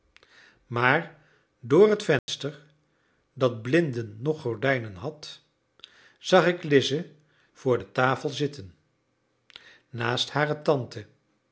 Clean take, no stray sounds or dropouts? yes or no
no